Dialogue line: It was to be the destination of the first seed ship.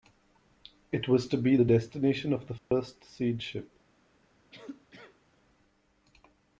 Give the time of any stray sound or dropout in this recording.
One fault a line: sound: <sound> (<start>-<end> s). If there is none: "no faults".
sound: dropout (2.6-2.7 s)
sound: cough (4.5-5.2 s)